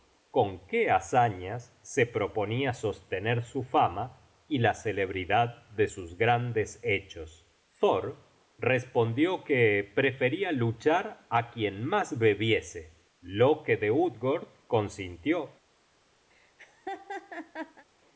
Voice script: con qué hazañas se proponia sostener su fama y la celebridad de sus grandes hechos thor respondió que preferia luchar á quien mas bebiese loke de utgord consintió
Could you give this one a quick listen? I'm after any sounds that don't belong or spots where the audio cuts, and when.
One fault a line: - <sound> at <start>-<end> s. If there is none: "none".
- laugh at 16.3-17.8 s